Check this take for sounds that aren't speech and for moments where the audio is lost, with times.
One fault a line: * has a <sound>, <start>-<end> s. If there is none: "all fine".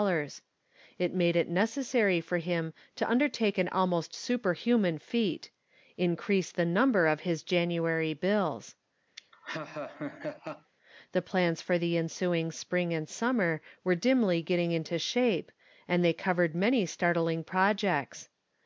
* has a laugh, 9.2-10.7 s